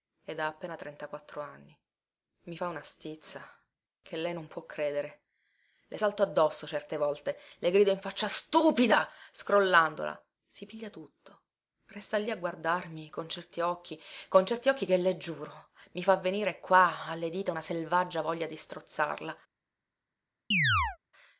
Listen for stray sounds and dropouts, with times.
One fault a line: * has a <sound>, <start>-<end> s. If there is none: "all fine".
* has a chirp, 20.5-21.0 s